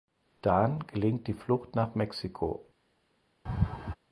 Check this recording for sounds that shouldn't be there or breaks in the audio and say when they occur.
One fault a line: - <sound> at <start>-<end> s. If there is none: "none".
- laugh at 3.5-4.0 s